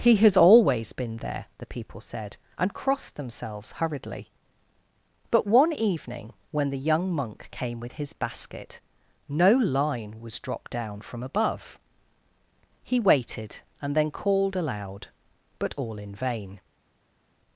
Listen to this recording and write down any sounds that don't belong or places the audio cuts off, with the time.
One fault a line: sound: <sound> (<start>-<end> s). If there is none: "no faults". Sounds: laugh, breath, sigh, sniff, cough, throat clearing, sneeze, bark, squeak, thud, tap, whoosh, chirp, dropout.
no faults